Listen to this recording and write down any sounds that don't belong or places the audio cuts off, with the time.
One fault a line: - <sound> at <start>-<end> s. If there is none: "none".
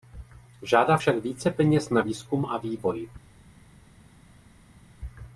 none